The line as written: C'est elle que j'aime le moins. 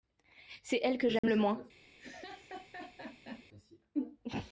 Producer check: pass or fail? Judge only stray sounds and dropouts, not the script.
fail